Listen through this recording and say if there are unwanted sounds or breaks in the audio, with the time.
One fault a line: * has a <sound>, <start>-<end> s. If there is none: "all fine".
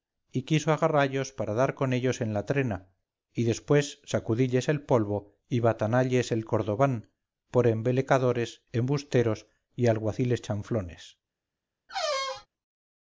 * has a squeak, 11.9-12.5 s